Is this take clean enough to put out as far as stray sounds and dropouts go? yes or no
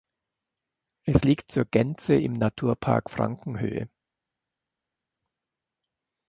yes